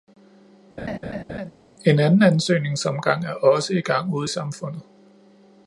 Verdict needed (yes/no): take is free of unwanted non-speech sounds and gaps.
no